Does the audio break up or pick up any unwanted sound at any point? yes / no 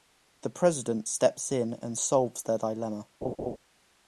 yes